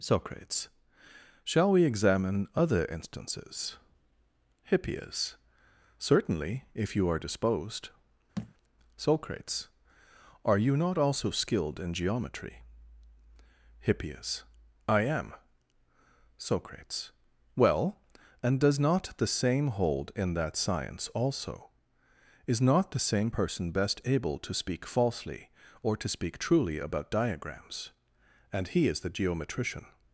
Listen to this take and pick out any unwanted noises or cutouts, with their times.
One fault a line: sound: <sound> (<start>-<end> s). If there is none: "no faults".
sound: thud (8.4-8.5 s)